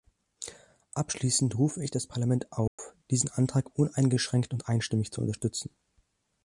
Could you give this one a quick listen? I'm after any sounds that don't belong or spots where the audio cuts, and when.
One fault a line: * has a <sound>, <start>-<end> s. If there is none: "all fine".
* has a dropout, 2.7-2.8 s